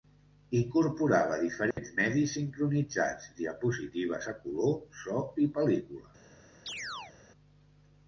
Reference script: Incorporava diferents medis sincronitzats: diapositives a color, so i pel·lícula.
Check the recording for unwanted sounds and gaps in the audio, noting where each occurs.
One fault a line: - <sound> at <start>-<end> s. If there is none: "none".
- dropout at 1.7-1.8 s
- chirp at 6.7-7.2 s